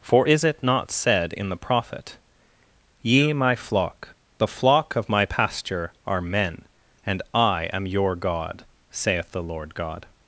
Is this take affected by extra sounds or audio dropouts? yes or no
no